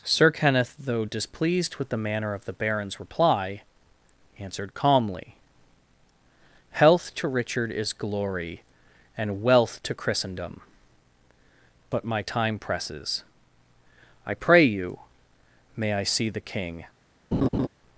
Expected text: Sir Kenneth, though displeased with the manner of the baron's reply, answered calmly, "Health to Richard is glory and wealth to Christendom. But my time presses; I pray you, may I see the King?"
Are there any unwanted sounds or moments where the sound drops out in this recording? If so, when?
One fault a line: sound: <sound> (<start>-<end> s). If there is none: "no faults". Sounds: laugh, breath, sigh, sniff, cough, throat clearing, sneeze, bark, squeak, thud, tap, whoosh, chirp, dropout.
sound: laugh (17.3-17.7 s)